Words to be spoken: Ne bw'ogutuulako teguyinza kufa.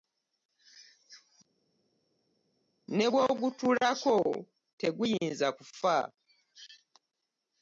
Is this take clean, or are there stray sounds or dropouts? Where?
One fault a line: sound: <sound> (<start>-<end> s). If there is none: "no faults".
no faults